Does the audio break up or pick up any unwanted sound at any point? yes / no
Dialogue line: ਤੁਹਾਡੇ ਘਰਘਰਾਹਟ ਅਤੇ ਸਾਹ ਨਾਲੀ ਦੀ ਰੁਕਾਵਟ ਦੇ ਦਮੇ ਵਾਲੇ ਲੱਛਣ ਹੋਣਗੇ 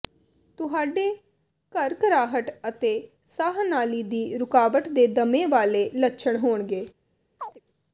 yes